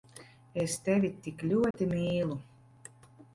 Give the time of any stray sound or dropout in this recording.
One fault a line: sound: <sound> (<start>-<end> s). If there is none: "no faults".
sound: dropout (1.7-1.7 s)